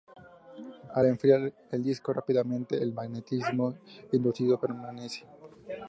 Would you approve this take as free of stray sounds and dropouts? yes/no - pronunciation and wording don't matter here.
yes